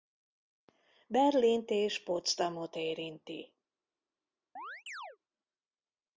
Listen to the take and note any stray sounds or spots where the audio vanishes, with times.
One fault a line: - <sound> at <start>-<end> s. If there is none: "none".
- chirp at 4.6-5.2 s